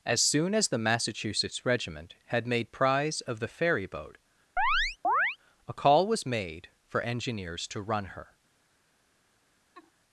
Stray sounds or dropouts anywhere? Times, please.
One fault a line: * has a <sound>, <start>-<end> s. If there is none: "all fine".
* has a chirp, 4.6-5.4 s
* has a laugh, 9.7-9.9 s